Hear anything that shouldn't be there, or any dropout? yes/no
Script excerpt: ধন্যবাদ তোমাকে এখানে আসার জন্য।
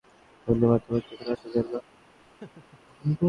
yes